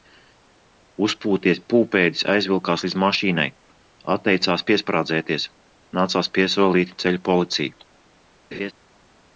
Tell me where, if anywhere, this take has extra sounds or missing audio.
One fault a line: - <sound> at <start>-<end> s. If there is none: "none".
- laugh at 8.5-8.7 s